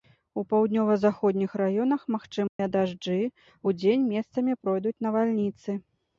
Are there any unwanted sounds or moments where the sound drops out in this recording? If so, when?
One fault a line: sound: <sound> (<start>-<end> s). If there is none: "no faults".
sound: dropout (2.5-2.6 s)